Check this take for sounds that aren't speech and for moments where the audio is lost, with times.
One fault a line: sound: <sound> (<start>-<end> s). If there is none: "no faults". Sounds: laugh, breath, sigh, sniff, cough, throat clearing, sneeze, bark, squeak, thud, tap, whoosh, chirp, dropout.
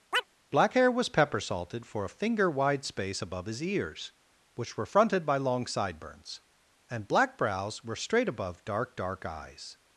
sound: chirp (0.1-0.3 s)